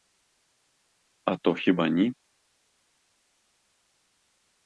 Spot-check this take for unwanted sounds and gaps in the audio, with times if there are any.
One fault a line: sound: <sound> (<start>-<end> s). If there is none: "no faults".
no faults